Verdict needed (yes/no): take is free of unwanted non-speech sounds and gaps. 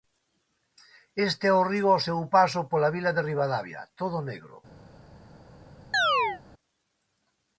no